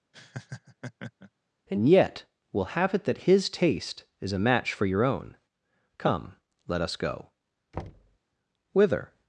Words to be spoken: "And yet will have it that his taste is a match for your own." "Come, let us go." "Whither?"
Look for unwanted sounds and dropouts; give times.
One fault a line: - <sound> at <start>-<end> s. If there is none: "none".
- laugh at 0.1-1.3 s
- thud at 7.7-8.2 s